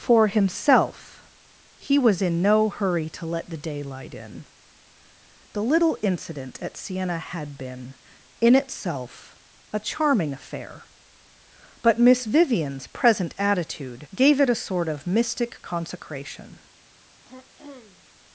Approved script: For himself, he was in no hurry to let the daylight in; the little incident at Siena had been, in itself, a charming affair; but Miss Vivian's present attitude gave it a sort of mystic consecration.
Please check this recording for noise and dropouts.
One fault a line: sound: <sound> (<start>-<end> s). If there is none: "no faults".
sound: throat clearing (17.3-18.1 s)